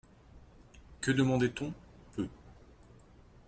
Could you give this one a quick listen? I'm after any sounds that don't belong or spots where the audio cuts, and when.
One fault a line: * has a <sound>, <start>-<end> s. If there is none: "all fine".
all fine